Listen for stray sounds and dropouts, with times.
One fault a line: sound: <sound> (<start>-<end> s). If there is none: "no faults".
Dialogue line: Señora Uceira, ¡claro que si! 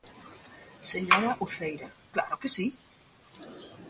no faults